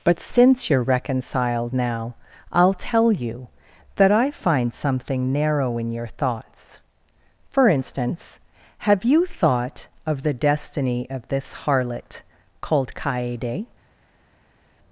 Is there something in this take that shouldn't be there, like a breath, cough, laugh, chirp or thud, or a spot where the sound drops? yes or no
no